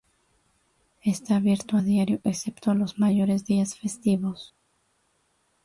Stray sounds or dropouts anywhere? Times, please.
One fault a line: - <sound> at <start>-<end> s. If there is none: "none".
none